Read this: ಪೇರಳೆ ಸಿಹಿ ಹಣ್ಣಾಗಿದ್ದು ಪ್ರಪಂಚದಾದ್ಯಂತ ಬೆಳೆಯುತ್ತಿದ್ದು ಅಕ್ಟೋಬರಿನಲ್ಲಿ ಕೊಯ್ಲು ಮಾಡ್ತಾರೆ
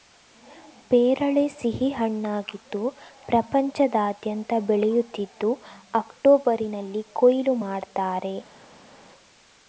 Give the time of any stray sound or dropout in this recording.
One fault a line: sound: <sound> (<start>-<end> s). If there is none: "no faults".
no faults